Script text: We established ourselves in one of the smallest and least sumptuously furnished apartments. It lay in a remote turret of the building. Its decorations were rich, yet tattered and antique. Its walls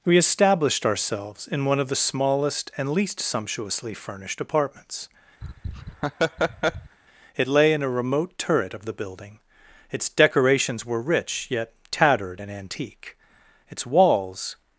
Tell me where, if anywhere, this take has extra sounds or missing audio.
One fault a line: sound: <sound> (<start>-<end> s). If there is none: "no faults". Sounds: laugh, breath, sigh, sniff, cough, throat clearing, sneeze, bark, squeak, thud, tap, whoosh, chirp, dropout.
sound: laugh (5.4-7.0 s)